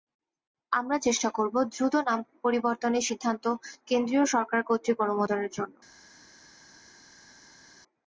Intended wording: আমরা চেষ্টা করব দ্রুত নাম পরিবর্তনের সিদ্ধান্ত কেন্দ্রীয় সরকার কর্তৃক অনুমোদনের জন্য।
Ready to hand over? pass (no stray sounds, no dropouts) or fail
pass